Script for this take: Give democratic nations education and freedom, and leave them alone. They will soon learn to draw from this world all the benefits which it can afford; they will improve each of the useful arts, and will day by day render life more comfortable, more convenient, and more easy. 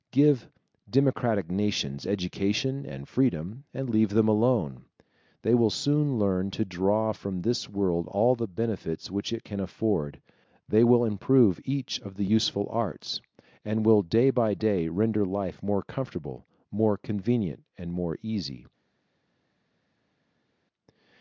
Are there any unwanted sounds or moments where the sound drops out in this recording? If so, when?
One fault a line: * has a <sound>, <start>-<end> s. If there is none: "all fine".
all fine